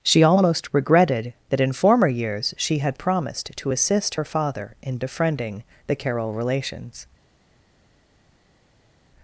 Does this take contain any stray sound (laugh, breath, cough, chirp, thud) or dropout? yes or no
no